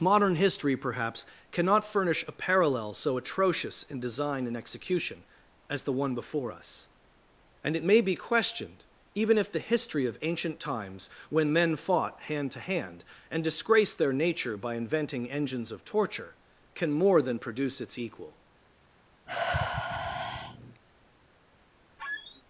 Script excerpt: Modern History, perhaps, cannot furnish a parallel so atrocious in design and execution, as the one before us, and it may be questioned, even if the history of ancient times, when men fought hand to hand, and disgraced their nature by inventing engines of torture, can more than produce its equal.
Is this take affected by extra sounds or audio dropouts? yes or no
yes